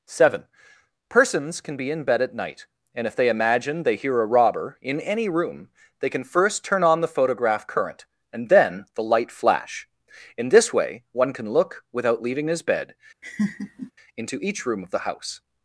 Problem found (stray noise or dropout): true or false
true